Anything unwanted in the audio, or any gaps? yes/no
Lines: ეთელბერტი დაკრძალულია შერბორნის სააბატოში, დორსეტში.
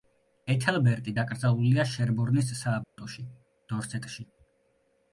yes